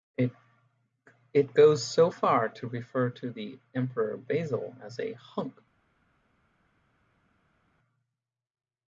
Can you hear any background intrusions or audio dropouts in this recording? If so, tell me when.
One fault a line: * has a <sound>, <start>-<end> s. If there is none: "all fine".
all fine